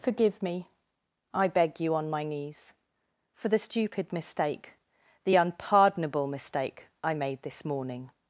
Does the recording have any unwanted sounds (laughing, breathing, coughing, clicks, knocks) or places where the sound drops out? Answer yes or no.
no